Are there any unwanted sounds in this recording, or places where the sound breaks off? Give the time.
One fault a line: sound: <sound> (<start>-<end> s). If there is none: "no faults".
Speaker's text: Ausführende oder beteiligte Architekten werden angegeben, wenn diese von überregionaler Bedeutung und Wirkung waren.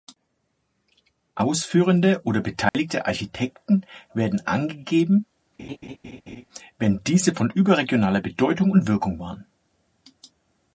sound: dropout (2.7-2.7 s)
sound: laugh (5.6-6.5 s)